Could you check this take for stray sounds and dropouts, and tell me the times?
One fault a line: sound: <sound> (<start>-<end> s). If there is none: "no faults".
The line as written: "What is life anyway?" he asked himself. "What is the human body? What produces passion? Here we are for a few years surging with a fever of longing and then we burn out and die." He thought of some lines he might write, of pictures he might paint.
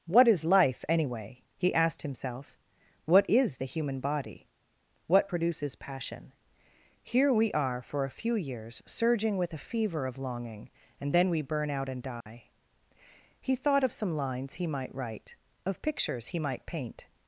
sound: dropout (12.2-12.3 s)